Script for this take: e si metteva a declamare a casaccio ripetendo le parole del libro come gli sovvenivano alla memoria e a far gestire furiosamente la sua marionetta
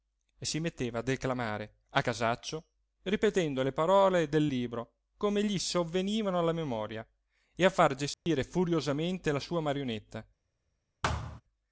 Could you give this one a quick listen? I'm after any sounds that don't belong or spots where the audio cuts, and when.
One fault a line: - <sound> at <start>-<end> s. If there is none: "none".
- dropout at 8.1-8.3 s
- thud at 11.0-11.4 s